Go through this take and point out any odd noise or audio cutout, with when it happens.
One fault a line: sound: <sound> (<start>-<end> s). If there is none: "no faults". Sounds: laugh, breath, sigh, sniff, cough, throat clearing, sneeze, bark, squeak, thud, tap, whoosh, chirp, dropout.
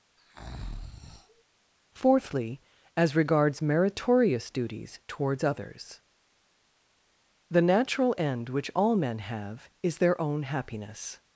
sound: breath (0.2-1.4 s)